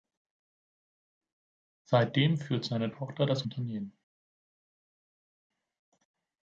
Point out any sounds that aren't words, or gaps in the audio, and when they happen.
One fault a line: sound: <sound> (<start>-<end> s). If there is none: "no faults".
no faults